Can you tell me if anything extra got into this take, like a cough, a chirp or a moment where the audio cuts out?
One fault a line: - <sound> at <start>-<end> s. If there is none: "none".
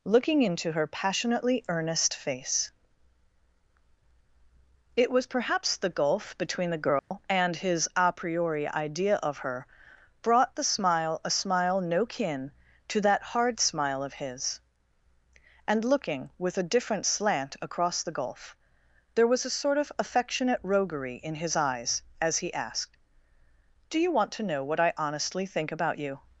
- dropout at 7.0-7.1 s